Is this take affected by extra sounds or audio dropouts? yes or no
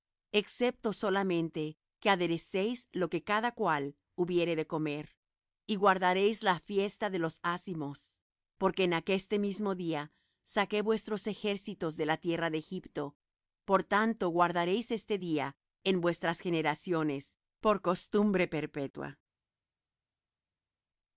no